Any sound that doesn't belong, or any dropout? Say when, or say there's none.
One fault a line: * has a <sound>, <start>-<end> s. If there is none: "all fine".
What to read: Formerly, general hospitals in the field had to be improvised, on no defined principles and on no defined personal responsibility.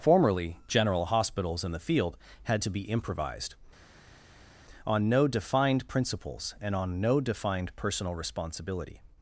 all fine